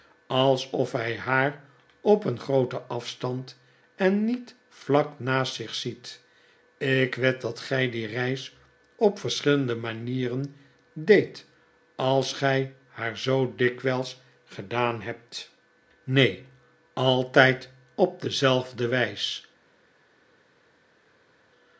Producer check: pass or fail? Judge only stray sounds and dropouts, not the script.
pass